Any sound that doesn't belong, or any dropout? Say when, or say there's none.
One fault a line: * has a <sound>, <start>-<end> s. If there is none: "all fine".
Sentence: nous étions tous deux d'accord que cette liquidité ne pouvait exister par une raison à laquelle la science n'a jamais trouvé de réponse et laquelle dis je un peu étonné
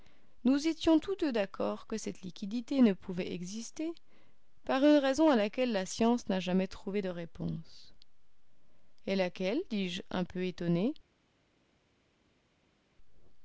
all fine